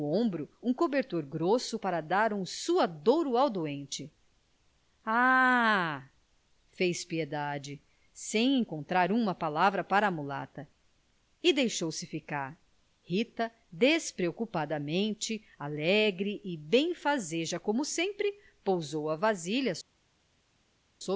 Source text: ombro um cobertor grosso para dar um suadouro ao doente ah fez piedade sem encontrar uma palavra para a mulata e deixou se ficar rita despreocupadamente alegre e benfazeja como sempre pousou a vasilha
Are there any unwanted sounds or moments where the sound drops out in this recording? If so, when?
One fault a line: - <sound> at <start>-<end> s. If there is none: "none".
none